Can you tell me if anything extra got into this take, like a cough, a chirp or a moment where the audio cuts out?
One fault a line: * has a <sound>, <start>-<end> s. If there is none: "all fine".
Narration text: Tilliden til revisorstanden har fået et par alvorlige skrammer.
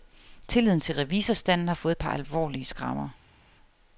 all fine